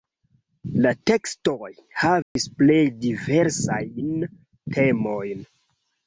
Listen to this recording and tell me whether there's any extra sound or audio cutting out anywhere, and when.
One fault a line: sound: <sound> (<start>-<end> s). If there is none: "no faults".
sound: dropout (2.2-2.4 s)